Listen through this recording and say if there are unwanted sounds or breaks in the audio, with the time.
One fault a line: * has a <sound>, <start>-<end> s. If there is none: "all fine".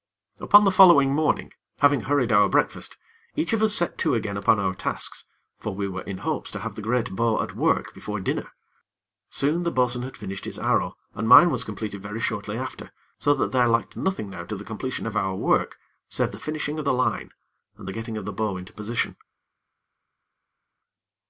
all fine